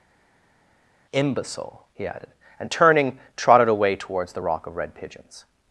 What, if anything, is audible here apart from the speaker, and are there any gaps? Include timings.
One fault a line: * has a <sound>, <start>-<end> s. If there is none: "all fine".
all fine